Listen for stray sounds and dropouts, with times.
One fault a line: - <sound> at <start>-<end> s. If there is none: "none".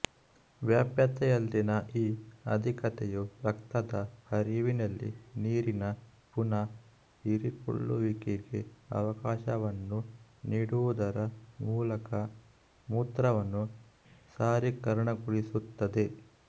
none